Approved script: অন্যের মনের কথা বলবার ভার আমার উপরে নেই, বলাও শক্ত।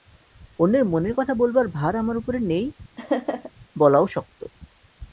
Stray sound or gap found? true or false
true